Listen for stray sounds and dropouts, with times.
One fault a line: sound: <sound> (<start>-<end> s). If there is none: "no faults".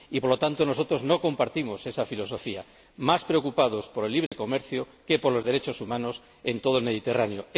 sound: dropout (4.3-4.3 s)